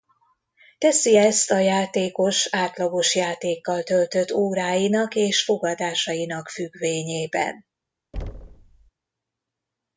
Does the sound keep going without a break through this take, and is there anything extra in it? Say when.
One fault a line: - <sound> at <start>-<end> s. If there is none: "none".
- thud at 8.1-8.9 s